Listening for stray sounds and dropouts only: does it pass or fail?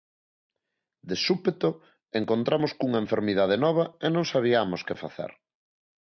pass